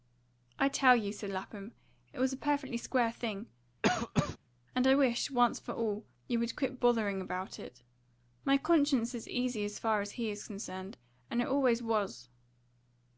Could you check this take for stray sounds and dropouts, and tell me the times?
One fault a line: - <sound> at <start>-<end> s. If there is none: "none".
- cough at 3.8-4.4 s